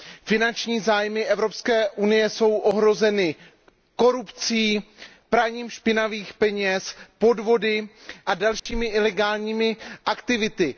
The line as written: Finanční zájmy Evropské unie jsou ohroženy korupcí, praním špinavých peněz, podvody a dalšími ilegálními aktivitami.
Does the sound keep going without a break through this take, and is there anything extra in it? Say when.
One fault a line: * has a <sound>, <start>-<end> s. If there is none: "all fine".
* has a dropout, 8.6-8.7 s